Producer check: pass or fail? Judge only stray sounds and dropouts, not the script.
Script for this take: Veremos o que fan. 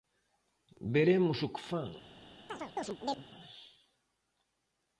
fail